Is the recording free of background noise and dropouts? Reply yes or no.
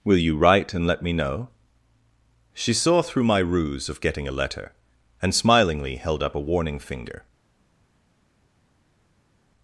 yes